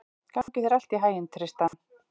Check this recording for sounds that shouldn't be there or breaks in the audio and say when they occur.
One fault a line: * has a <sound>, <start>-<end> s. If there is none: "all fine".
* has a dropout, 0.4-0.5 s
* has a dropout, 1.7-1.7 s